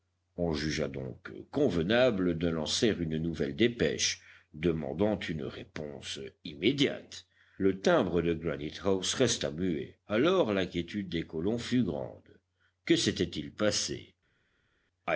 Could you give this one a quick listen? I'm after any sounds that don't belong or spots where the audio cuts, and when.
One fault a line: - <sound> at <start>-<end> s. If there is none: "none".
none